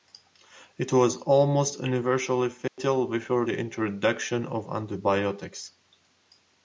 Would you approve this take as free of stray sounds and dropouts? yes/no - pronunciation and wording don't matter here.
no